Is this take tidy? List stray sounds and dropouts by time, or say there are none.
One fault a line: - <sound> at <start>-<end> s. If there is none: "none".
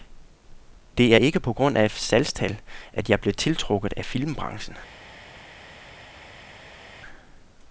none